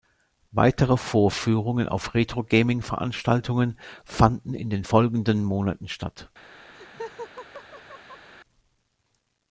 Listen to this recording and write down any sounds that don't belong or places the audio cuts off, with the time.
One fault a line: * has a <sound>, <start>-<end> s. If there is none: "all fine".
* has a laugh, 6.7-8.3 s